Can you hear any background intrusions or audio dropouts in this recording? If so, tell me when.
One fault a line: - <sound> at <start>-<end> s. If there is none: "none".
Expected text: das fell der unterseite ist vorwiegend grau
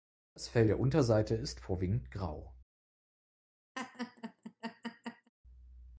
- laugh at 3.7-5.3 s